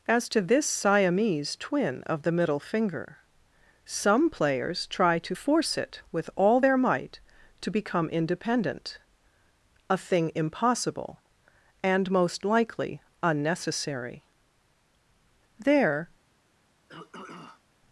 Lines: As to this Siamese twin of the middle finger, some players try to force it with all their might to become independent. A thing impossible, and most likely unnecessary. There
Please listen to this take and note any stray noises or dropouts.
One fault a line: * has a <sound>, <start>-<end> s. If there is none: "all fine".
* has a throat clearing, 16.9-17.6 s